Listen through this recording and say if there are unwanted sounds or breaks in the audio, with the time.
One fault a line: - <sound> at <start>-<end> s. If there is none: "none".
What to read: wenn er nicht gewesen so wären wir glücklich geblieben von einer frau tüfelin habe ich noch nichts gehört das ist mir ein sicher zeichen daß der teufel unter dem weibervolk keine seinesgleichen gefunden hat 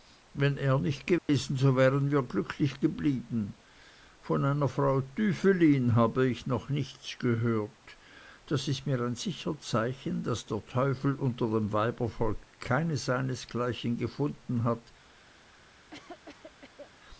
- dropout at 1.2-1.3 s
- cough at 15.9-16.9 s